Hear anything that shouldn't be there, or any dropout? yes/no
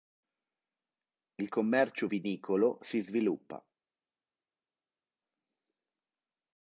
no